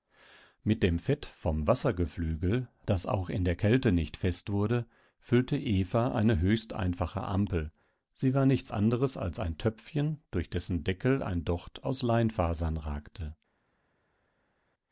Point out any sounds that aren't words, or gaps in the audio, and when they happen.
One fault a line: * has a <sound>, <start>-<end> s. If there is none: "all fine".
all fine